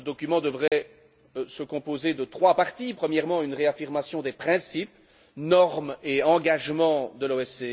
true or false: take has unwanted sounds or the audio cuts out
true